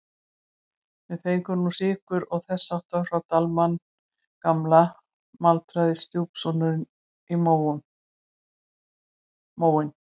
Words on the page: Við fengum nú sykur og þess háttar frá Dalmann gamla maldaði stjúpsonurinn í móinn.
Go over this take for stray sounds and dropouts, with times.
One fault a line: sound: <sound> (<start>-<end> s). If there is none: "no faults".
no faults